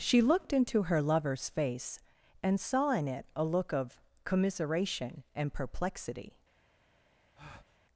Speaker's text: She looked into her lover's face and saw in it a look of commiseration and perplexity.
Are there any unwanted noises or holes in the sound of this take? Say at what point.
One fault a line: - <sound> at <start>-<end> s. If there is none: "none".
- breath at 7.4-7.8 s